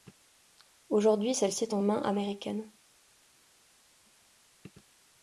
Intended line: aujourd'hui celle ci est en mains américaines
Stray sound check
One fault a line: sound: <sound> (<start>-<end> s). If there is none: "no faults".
no faults